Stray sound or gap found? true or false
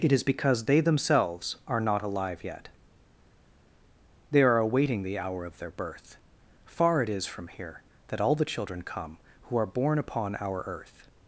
false